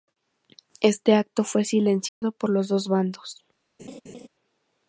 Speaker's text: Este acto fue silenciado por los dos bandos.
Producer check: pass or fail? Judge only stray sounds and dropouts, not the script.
fail